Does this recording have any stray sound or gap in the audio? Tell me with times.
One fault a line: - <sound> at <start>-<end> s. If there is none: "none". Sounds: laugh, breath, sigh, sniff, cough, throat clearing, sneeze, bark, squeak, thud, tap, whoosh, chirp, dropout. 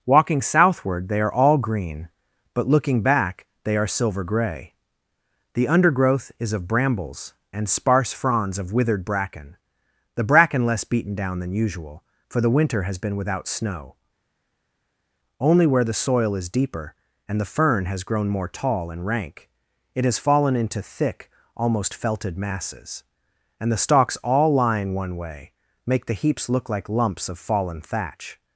none